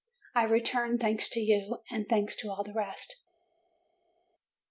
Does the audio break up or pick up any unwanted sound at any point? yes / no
no